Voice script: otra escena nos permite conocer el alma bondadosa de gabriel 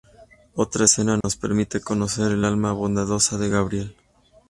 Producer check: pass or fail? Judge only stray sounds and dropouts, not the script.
fail